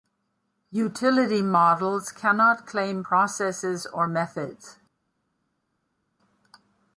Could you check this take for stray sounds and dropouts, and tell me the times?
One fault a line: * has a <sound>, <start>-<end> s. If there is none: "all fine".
all fine